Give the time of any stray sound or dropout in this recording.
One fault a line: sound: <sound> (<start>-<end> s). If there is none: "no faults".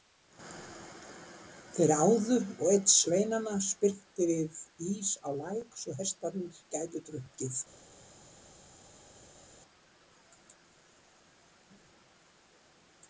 no faults